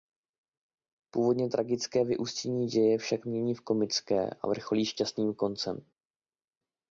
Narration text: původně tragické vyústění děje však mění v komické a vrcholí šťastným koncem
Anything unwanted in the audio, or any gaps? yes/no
no